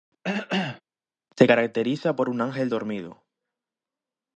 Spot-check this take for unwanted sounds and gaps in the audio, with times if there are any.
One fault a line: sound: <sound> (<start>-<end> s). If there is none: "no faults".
sound: cough (0.2-0.8 s)